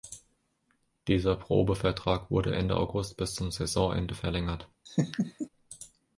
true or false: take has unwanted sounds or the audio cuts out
true